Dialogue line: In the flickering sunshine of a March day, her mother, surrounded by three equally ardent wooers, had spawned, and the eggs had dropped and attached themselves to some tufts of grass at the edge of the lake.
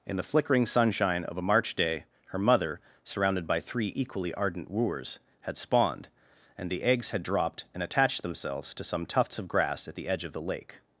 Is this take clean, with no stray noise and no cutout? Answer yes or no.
yes